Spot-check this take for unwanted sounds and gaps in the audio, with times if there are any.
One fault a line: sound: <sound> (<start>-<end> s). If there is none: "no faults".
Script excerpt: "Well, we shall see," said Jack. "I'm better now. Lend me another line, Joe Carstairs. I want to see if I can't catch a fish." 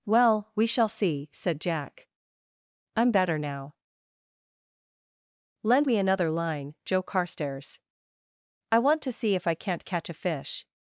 no faults